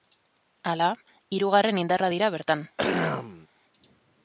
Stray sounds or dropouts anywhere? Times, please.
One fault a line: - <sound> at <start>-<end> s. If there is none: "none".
- throat clearing at 2.8-3.5 s